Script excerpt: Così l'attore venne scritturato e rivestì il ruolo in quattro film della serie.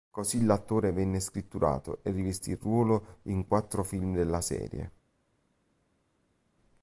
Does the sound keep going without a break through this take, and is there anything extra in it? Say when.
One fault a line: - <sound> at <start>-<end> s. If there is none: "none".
none